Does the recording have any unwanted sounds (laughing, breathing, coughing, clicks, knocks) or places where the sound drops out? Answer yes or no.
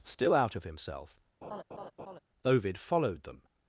yes